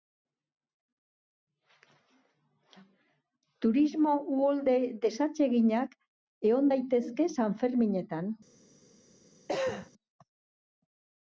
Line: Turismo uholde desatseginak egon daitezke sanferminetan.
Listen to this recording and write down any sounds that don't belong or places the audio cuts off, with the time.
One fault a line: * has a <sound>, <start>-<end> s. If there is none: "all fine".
* has a cough, 9.5-9.9 s